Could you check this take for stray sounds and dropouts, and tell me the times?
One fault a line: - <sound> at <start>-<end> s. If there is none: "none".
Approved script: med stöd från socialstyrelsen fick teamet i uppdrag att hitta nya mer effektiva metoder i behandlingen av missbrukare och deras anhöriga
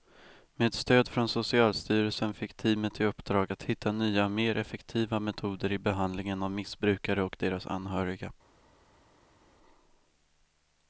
none